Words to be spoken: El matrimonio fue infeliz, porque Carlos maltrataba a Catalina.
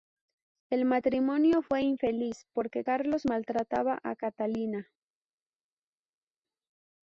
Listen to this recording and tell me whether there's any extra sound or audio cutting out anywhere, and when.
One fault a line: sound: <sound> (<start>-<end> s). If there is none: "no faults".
no faults